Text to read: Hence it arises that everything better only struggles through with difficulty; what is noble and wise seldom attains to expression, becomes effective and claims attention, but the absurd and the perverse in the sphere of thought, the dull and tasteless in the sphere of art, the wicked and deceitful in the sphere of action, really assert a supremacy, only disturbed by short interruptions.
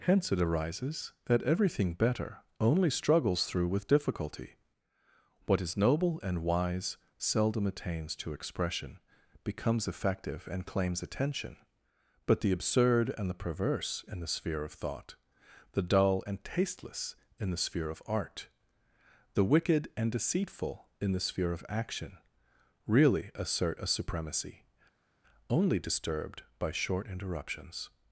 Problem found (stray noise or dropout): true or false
false